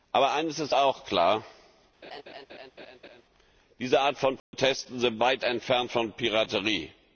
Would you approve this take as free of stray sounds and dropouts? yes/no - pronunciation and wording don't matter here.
no